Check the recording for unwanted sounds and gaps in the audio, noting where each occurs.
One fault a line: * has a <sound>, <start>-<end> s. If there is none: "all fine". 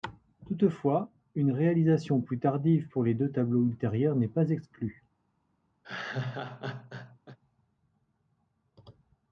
* has a laugh, 5.8-7.4 s